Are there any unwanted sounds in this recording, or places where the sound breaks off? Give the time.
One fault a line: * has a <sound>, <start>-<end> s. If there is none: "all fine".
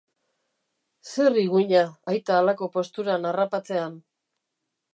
all fine